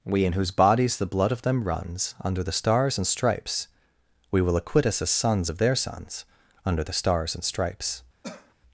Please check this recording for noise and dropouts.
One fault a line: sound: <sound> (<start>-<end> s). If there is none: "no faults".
sound: cough (8.2-8.5 s)